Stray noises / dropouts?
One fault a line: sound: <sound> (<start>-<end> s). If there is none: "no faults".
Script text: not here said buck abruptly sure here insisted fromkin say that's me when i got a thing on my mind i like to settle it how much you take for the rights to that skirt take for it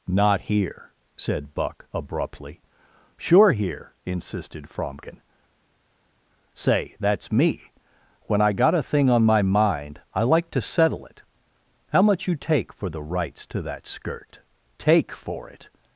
no faults